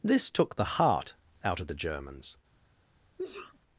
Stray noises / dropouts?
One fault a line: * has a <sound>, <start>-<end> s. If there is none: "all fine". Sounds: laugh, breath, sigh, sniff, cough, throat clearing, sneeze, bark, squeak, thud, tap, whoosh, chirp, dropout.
* has a sneeze, 3.2-3.6 s